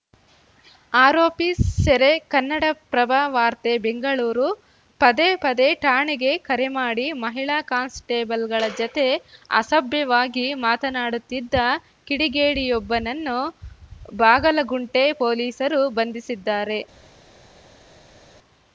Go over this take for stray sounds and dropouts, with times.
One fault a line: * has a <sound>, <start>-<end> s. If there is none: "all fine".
all fine